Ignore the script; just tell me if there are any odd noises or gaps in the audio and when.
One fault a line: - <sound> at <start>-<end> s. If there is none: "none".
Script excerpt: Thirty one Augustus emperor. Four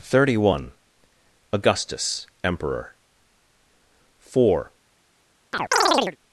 - chirp at 5.5-6.2 s